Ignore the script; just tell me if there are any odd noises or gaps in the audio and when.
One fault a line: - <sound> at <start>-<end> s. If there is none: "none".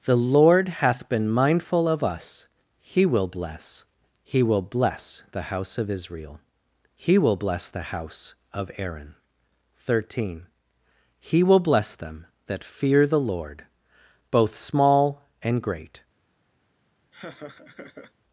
- laugh at 17.1-18.1 s